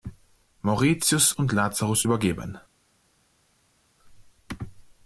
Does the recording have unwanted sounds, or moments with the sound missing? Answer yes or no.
no